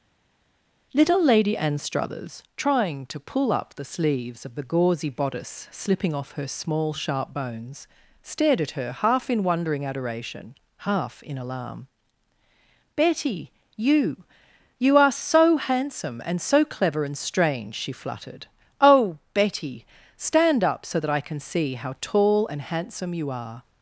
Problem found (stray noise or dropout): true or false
false